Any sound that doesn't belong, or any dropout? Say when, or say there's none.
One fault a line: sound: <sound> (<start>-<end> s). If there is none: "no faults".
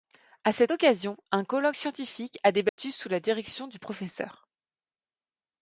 sound: dropout (2.7-2.8 s)